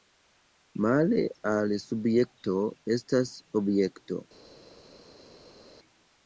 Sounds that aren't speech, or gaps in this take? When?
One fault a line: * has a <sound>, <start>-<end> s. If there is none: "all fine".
all fine